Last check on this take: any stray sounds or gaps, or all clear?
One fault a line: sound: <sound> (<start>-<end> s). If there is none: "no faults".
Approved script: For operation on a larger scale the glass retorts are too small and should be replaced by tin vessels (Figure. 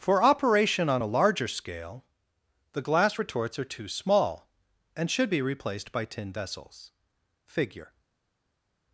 no faults